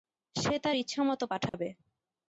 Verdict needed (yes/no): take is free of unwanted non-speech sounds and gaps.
no